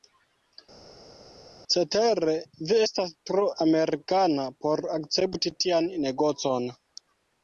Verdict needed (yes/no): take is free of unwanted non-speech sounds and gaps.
yes